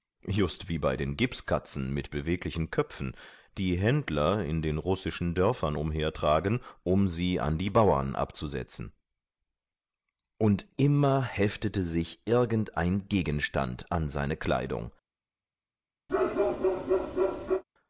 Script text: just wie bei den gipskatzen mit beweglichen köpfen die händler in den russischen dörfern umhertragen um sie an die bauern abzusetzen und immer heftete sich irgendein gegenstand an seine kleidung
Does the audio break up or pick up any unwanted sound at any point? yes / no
yes